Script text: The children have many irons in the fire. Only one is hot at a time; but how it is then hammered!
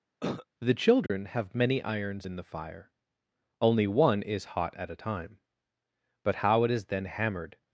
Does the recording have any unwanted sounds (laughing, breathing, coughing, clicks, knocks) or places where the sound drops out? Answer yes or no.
yes